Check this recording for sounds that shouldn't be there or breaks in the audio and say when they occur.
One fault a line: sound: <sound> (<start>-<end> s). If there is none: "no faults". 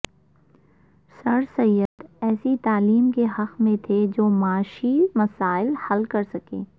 sound: dropout (1.9-2.0 s)